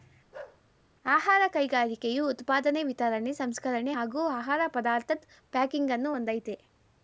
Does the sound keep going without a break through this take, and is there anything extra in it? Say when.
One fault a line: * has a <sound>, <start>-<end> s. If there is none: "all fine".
* has a bark, 0.3-0.6 s